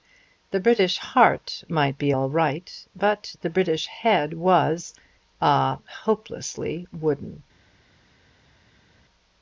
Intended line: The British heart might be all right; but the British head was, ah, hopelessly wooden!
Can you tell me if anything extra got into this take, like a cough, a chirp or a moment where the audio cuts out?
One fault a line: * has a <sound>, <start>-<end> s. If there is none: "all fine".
all fine